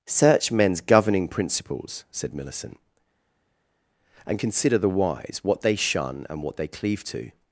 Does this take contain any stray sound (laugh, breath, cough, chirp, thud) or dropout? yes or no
no